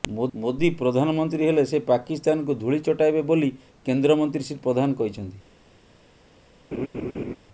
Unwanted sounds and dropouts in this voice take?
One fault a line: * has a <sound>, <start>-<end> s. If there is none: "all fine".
* has a laugh, 6.7-7.4 s